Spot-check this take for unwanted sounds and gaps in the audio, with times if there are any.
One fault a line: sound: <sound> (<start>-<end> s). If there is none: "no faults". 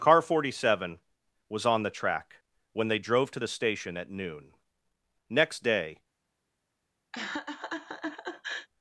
sound: laugh (7.1-8.7 s)